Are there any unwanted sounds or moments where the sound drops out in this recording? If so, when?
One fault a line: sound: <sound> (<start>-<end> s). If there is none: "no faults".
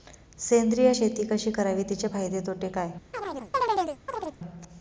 sound: chirp (3.1-4.4 s)